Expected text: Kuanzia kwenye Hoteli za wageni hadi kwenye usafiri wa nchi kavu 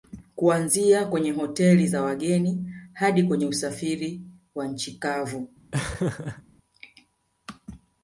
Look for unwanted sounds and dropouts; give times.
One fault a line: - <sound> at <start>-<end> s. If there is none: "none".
- laugh at 5.7-6.4 s